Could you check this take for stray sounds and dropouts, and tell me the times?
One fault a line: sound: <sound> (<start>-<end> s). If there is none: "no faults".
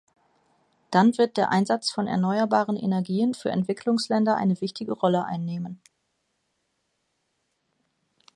no faults